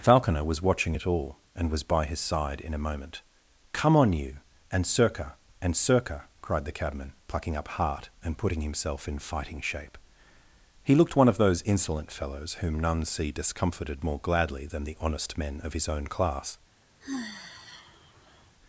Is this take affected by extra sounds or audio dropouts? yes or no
yes